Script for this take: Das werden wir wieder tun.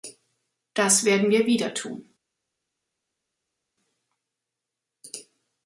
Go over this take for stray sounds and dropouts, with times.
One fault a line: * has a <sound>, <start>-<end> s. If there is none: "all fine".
all fine